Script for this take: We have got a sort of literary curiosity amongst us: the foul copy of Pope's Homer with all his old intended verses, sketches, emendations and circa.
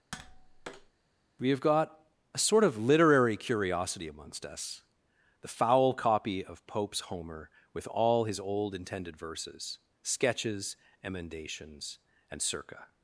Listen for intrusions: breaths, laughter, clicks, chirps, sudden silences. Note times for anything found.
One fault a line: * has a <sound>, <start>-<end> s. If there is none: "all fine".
* has a tap, 0.1-0.9 s